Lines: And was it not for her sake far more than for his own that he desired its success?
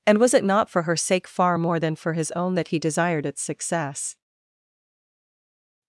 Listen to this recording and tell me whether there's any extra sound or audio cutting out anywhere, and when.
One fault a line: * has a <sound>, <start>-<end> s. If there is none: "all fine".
all fine